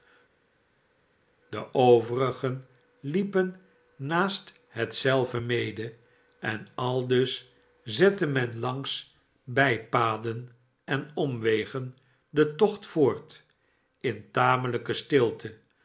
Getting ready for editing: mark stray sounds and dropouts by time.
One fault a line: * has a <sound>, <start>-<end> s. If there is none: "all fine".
all fine